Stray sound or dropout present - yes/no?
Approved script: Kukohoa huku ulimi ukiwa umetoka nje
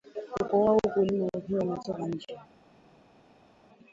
no